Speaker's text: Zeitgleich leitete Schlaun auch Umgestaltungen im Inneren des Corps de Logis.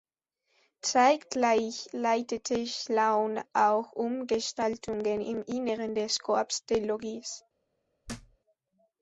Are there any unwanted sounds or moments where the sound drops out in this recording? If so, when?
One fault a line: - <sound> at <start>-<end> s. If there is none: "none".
- thud at 8.0-8.4 s